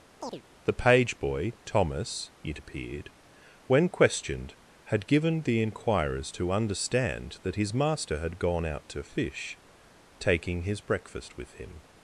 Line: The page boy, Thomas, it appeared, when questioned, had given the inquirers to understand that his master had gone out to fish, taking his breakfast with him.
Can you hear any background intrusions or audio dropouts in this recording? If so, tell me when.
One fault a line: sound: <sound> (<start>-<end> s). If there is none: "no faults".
sound: chirp (0.2-0.4 s)